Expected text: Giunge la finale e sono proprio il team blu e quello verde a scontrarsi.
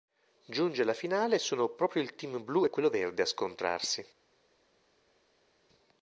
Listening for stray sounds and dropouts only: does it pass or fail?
pass